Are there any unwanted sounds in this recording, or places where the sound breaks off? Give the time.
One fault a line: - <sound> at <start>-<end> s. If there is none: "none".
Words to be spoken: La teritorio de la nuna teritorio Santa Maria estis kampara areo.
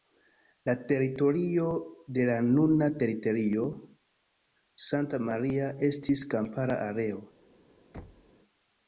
- thud at 7.9-8.3 s